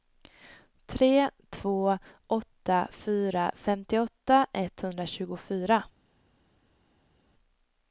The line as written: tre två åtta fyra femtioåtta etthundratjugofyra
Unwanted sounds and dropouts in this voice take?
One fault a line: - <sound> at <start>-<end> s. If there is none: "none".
none